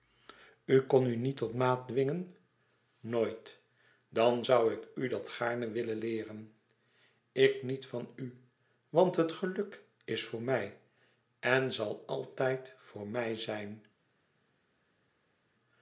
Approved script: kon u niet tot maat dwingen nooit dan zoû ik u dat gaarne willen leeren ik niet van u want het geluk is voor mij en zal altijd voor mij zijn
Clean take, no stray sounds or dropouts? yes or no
yes